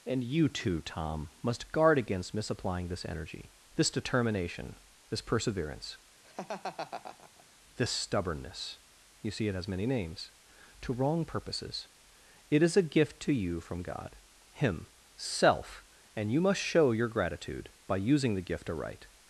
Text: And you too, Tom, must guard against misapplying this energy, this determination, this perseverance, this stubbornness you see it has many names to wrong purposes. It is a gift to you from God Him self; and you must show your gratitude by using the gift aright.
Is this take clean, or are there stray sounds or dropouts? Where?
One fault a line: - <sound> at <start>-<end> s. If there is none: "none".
- laugh at 6.2-7.5 s